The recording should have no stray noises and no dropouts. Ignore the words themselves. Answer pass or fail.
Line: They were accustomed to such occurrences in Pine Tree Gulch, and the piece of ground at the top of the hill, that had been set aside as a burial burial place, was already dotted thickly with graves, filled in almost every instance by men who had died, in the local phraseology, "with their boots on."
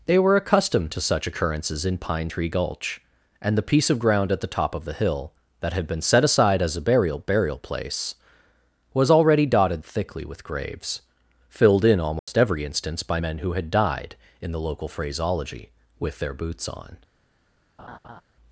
fail